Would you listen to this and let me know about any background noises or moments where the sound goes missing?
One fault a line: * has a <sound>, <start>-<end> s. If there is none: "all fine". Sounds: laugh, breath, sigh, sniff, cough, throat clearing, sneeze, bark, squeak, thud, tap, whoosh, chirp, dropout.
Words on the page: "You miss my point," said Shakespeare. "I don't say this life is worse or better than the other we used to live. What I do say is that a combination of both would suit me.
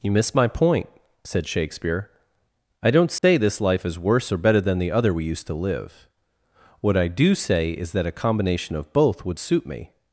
* has a dropout, 3.2-3.2 s